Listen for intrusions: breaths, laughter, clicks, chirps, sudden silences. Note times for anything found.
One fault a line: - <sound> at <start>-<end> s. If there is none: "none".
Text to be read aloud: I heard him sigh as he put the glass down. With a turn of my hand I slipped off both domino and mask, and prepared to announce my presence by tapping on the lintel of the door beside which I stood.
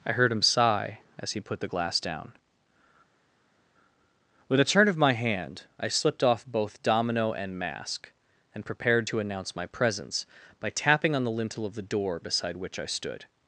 none